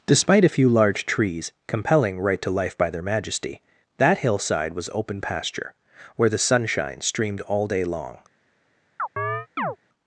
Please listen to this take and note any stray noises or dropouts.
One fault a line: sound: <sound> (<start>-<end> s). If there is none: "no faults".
sound: chirp (9.0-9.8 s)